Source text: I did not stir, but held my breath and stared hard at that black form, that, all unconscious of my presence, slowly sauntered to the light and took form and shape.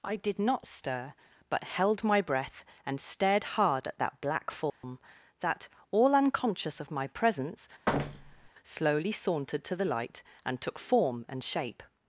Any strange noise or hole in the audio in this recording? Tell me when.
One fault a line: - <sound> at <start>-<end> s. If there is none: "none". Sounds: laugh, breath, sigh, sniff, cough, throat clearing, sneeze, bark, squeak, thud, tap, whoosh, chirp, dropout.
- dropout at 4.7-4.8 s
- thud at 7.9-8.5 s